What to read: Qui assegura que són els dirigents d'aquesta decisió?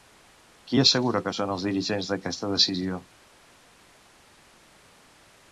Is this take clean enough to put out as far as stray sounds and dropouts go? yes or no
yes